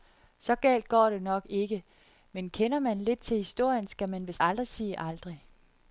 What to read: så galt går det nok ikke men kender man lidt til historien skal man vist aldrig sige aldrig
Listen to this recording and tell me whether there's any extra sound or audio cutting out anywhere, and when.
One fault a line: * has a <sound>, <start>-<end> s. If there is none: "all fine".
all fine